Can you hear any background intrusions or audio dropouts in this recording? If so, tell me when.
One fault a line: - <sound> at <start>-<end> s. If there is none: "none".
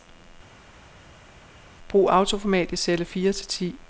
none